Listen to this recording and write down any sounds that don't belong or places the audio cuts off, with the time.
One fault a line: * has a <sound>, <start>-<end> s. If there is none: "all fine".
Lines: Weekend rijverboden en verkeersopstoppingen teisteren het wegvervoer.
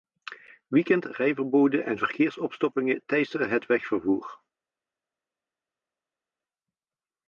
all fine